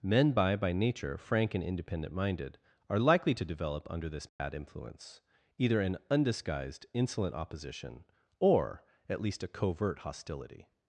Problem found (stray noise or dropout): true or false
true